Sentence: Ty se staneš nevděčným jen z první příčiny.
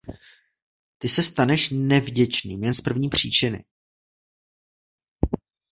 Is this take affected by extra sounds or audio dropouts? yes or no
no